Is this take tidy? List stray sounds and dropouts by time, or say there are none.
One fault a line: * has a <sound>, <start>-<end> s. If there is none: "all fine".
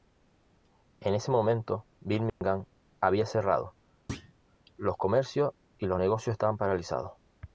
* has a dropout, 2.3-2.4 s
* has a thud, 4.1-4.3 s